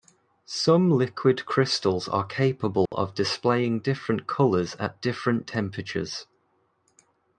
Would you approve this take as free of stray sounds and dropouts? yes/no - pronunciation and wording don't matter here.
no